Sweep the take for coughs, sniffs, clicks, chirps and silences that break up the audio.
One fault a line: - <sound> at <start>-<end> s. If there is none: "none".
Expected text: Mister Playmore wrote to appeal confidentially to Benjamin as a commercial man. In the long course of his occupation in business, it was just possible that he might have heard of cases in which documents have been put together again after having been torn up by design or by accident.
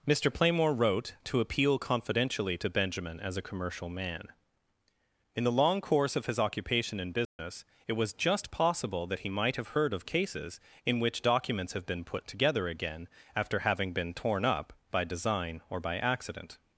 - dropout at 7.2-7.4 s